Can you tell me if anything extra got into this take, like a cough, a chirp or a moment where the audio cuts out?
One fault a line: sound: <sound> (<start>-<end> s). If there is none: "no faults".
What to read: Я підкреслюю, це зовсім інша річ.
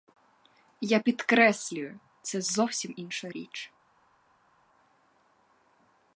no faults